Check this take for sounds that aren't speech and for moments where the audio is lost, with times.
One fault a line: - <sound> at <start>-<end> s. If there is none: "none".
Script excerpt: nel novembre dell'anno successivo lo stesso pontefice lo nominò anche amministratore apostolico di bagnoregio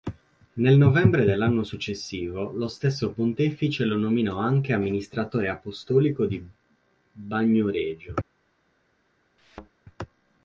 - thud at 9.4-9.7 s